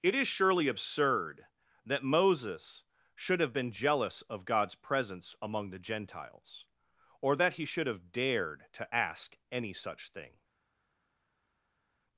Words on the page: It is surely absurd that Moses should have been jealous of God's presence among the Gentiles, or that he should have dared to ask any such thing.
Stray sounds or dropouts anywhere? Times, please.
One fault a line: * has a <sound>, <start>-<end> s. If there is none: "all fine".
all fine